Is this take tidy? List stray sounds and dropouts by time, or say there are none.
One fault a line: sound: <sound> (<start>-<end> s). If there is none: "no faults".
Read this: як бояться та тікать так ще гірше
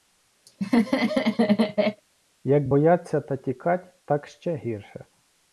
sound: laugh (0.5-2.0 s)